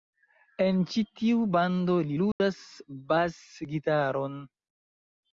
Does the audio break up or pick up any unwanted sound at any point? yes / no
yes